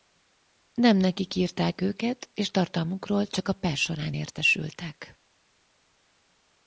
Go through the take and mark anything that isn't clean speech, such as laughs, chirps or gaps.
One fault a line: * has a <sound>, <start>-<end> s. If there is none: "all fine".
all fine